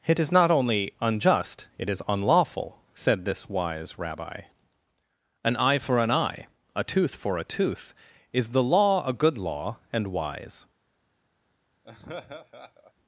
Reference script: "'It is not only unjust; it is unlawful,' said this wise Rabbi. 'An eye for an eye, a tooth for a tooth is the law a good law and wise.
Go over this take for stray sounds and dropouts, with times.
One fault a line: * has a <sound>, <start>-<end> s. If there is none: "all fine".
* has a laugh, 11.8-12.9 s